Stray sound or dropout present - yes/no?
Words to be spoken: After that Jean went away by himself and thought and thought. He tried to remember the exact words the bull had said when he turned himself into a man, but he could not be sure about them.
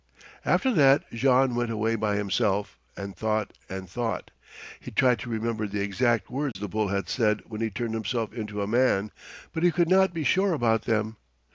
yes